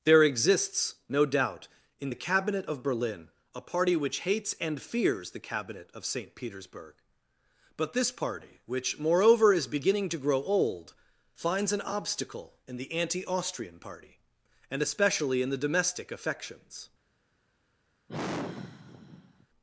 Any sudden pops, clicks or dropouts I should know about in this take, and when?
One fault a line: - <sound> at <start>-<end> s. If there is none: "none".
- sigh at 18.1-19.5 s